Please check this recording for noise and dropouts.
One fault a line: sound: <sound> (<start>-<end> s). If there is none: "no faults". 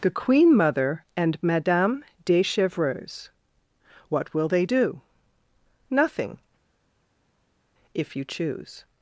no faults